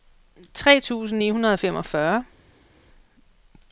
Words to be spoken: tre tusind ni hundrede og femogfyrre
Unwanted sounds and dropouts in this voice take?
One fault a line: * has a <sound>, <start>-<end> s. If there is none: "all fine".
all fine